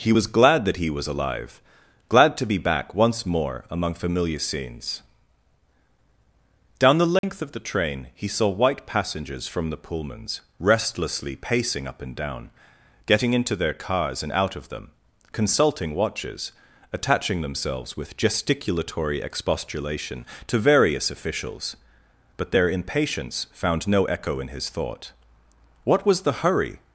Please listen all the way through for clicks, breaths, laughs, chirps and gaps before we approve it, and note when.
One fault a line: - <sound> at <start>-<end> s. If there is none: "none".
- dropout at 7.2-7.2 s